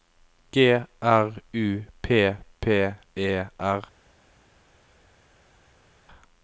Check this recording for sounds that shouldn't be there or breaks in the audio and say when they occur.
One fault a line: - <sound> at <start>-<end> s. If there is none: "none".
none